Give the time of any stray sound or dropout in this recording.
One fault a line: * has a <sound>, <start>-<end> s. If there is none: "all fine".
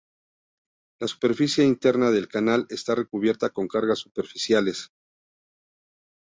all fine